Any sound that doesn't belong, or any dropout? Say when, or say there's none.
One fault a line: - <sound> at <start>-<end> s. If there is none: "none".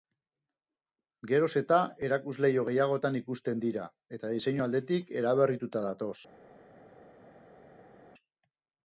none